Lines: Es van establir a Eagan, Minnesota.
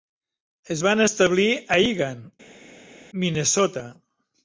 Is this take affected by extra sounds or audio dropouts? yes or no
no